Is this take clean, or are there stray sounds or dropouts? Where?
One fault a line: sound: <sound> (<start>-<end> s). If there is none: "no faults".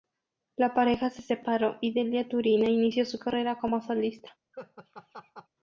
sound: laugh (4.5-5.5 s)